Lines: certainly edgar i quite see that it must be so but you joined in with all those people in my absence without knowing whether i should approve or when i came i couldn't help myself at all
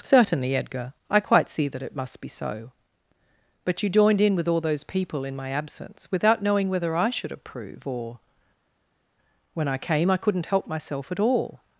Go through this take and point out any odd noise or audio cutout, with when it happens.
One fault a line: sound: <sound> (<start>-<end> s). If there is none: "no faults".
no faults